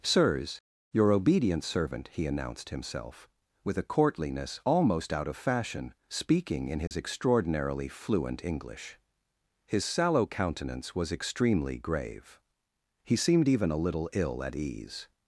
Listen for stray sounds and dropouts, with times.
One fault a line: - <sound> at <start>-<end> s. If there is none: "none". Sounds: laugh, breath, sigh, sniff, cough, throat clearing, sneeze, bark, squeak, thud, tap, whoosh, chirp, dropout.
- dropout at 6.9-6.9 s